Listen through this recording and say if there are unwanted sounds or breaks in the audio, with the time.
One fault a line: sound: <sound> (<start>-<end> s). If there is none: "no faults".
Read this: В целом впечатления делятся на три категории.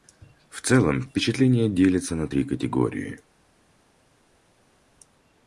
no faults